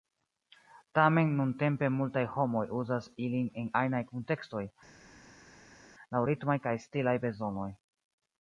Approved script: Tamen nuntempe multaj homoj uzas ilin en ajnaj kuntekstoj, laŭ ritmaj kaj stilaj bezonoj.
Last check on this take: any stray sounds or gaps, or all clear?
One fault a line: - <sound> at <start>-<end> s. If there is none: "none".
none